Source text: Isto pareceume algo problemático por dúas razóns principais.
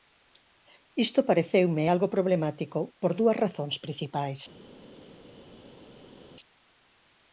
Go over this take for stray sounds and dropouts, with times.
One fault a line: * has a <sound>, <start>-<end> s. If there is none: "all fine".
all fine